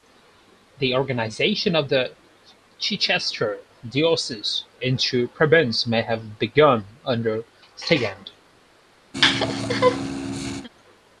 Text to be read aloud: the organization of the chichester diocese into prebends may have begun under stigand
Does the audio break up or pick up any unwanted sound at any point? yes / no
yes